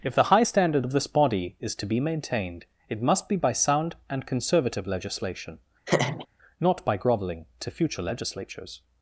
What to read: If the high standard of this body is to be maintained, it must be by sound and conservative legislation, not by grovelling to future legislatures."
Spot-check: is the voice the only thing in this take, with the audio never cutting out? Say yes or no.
no